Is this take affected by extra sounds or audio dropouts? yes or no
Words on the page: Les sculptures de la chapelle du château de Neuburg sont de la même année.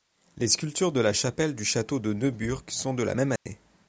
yes